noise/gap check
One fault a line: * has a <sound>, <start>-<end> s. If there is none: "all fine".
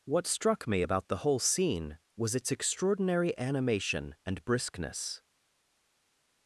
all fine